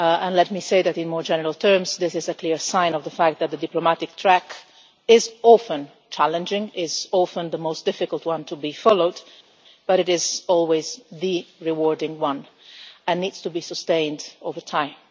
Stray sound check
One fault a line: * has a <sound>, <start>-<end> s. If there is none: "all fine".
all fine